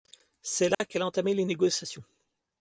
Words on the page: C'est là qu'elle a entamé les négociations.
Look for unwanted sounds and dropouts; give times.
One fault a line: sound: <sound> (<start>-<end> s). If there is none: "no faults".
sound: dropout (0.7-0.8 s)